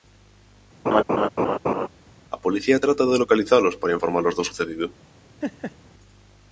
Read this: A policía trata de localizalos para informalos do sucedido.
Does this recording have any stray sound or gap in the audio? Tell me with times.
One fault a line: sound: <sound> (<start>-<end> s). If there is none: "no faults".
sound: laugh (0.9-1.9 s)
sound: laugh (5.4-5.8 s)